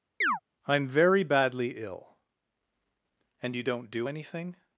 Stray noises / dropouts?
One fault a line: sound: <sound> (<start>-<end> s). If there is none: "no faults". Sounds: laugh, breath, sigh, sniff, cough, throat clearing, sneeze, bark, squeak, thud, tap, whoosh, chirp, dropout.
sound: chirp (0.2-0.4 s)